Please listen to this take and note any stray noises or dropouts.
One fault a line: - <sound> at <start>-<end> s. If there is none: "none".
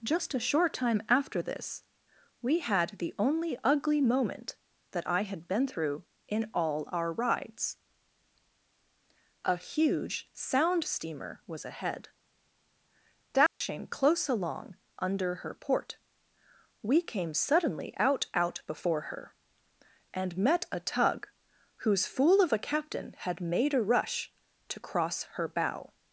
- dropout at 13.5-13.6 s